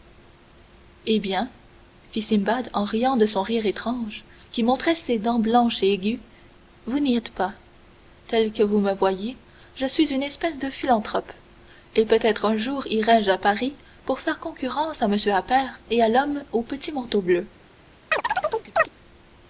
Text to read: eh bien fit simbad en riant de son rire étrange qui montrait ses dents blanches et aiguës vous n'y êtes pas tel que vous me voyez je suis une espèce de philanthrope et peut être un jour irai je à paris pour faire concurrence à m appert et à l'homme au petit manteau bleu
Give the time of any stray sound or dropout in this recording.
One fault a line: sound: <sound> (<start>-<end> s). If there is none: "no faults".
sound: chirp (18.1-18.9 s)